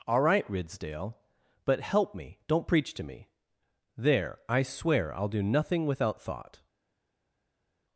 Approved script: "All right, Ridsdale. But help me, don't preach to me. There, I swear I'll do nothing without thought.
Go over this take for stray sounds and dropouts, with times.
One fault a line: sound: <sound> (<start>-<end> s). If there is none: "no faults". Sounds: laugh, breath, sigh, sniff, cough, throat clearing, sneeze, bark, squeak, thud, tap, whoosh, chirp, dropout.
no faults